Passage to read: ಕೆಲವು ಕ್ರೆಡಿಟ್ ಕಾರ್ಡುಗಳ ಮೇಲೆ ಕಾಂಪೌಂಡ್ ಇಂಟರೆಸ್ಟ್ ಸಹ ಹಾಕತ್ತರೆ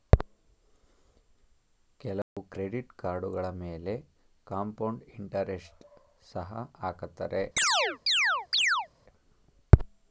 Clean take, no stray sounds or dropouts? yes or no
no